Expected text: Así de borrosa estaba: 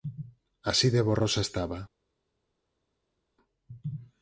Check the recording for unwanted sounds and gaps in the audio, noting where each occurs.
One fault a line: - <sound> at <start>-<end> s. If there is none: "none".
none